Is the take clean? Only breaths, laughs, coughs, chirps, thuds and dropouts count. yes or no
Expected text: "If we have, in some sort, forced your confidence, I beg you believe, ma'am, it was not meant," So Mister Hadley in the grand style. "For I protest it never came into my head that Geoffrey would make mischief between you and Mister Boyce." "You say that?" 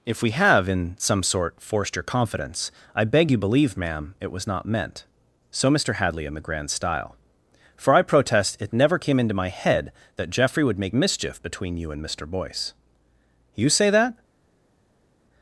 yes